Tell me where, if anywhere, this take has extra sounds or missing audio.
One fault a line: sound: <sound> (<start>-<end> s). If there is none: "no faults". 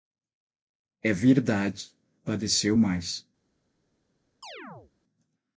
sound: chirp (4.4-4.9 s)